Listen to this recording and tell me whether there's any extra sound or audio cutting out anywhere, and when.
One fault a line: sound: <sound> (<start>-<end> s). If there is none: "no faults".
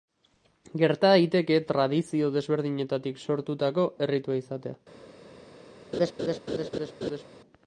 sound: laugh (5.9-7.2 s)